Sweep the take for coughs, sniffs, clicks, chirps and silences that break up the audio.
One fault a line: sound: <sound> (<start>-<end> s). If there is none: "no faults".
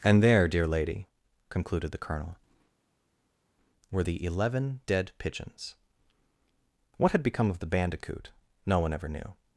no faults